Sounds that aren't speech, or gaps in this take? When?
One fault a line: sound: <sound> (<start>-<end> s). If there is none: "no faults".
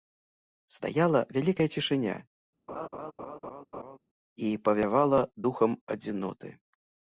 sound: laugh (2.7-4.0 s)